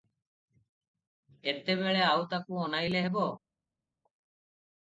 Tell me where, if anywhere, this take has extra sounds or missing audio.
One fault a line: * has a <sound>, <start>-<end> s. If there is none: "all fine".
all fine